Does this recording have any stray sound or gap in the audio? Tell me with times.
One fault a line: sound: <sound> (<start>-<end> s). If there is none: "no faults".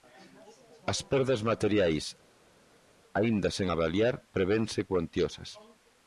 no faults